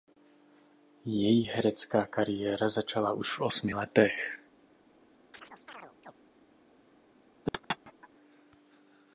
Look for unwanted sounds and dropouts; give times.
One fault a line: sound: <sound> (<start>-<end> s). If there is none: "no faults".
sound: chirp (5.3-6.1 s)
sound: laugh (7.5-8.1 s)